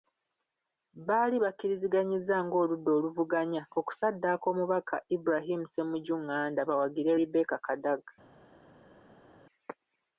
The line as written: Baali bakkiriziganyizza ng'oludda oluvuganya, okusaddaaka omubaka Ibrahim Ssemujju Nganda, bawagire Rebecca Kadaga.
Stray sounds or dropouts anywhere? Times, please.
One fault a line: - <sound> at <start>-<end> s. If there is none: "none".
none